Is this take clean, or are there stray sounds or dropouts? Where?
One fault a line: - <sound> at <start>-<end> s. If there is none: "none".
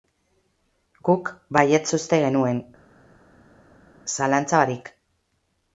none